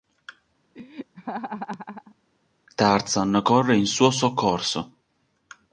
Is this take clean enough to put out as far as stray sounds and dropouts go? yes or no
no